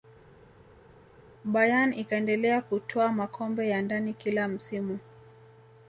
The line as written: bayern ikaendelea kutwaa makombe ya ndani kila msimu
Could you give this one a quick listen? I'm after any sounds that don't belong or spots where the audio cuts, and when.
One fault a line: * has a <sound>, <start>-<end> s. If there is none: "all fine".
all fine